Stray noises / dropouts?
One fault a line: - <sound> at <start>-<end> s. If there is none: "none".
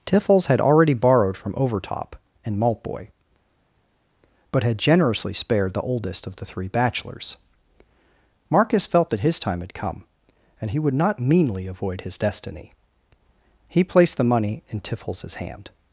none